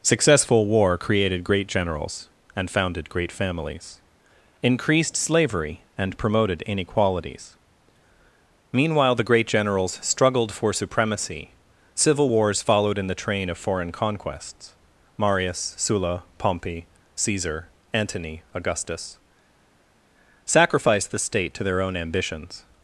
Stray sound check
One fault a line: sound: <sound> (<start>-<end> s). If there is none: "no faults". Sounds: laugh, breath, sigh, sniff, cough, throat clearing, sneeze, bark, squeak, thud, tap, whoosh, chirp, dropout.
no faults